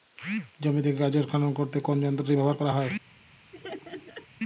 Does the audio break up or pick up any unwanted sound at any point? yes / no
yes